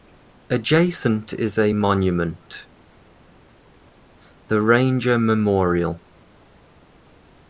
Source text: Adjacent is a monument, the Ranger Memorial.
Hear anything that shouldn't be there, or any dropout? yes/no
no